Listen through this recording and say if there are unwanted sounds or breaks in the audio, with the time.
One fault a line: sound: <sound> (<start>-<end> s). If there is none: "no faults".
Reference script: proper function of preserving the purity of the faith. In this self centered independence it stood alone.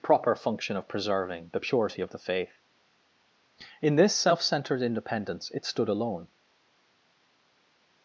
no faults